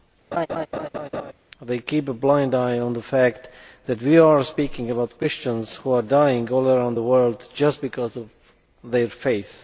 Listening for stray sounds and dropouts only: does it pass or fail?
fail